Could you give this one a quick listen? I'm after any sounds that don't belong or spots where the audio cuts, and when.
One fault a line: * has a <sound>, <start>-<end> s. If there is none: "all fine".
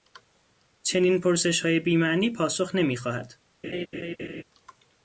* has a laugh, 3.6-4.4 s